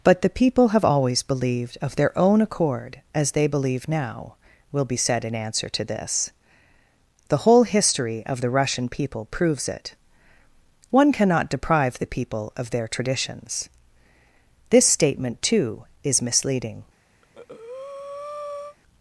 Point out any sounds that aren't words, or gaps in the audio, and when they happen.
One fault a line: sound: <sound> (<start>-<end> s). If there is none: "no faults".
sound: breath (17.2-18.8 s)